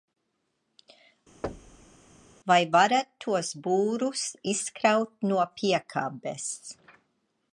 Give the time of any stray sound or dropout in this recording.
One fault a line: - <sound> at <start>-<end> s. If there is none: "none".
- thud at 1.4-1.9 s